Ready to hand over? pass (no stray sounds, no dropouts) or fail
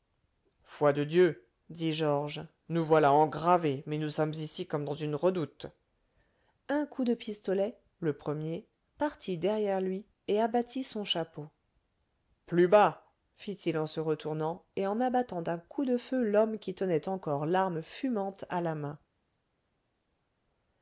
pass